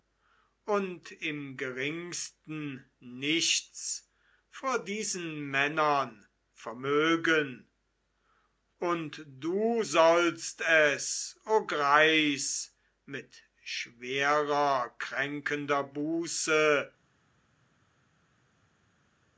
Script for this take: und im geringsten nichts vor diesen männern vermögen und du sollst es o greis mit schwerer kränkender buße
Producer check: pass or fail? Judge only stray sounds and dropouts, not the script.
pass